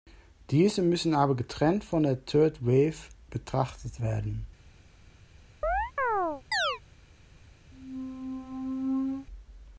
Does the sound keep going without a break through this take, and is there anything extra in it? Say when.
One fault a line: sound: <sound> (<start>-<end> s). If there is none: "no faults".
sound: chirp (5.6-6.8 s)
sound: squeak (7.7-9.3 s)